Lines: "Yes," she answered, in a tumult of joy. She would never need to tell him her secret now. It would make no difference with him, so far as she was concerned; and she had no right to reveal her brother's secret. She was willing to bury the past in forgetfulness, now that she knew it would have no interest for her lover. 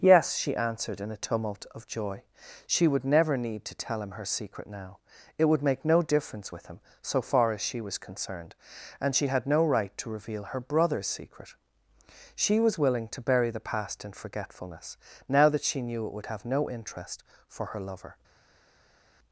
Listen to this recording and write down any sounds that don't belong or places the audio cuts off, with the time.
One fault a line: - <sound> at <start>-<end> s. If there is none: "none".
none